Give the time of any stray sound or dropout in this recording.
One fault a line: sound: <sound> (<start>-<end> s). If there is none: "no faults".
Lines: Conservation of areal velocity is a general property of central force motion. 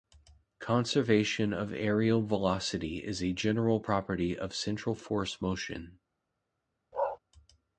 sound: bark (6.9-7.2 s)